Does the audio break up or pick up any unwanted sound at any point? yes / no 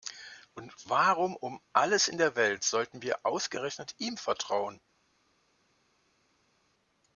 no